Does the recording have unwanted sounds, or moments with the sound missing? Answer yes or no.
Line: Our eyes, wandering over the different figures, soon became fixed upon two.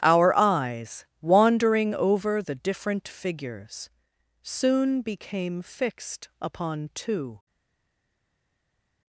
no